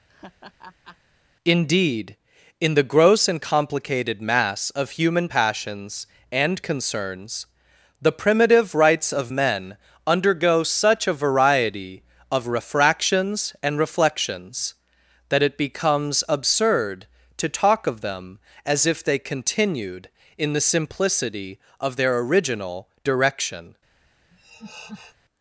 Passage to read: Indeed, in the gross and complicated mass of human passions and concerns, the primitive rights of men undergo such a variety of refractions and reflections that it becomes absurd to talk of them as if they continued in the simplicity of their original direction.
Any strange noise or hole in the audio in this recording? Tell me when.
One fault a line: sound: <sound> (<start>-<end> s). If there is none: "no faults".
sound: laugh (0.1-1.0 s)
sound: laugh (24.3-25.2 s)